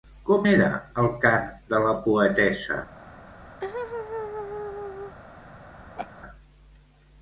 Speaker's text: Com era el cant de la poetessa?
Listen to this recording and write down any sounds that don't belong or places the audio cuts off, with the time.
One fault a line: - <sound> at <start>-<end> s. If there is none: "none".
- laugh at 3.6-5.2 s
- laugh at 6.0-6.1 s